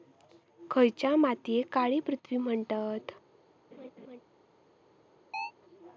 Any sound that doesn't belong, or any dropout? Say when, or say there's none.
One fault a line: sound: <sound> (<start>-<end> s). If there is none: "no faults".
sound: laugh (3.7-4.2 s)
sound: chirp (5.3-5.5 s)